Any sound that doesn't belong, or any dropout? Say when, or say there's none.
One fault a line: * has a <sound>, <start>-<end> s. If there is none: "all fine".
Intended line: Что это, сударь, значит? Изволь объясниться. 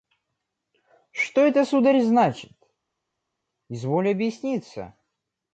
all fine